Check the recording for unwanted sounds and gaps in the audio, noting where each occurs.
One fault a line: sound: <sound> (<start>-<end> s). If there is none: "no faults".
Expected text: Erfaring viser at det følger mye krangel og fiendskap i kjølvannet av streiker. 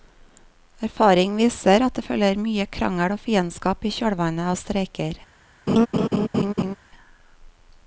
sound: laugh (5.7-6.8 s)